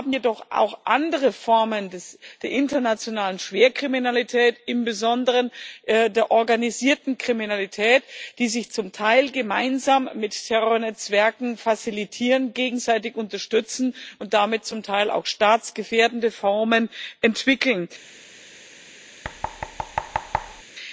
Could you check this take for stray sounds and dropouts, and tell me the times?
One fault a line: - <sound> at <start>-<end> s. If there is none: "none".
- thud at 19.2-20.6 s